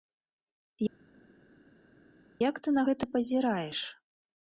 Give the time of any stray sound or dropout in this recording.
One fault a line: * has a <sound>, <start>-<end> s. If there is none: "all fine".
all fine